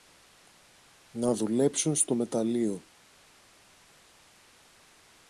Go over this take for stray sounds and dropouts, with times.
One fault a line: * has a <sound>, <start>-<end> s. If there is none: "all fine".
all fine